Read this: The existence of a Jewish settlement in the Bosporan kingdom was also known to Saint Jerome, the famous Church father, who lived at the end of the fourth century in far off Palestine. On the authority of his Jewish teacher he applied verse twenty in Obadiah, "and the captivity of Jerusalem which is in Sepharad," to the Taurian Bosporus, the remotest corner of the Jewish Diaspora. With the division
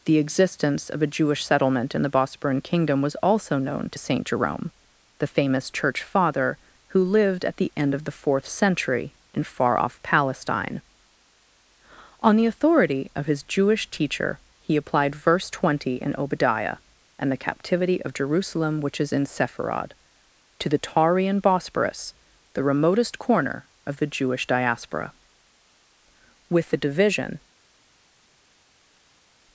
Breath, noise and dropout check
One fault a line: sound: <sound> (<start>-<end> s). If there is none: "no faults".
no faults